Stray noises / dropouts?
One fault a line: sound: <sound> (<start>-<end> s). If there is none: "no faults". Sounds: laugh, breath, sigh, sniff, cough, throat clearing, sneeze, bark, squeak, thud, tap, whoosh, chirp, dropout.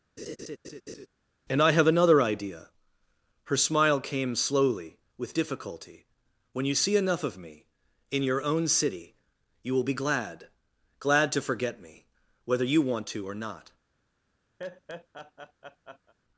sound: laugh (0.2-1.1 s)
sound: laugh (14.6-16.1 s)